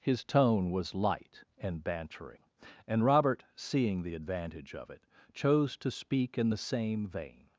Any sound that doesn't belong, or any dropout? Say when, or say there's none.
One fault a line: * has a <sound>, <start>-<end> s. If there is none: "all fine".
all fine